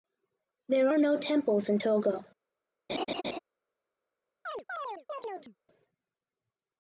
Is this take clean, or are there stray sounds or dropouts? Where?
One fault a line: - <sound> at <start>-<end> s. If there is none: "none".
- laugh at 2.9-3.4 s
- chirp at 4.5-5.6 s